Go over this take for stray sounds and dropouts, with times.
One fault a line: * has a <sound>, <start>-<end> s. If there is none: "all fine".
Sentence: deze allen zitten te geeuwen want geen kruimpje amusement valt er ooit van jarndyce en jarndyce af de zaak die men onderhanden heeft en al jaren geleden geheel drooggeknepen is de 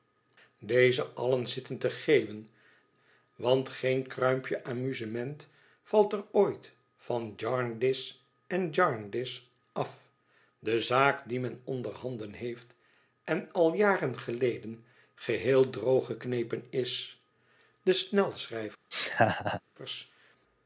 * has a laugh, 18.9-19.6 s